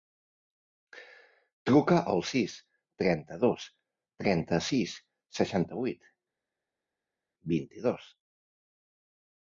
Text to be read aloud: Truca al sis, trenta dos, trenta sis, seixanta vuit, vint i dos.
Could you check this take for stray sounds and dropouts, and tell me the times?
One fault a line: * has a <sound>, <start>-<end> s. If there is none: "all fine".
all fine